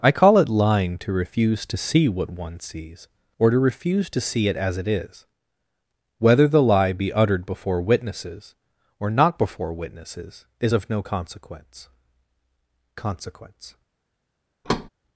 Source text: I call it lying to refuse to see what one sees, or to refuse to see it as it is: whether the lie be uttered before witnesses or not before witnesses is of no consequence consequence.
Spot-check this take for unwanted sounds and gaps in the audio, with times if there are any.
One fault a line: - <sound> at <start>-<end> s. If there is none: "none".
- thud at 14.6-14.9 s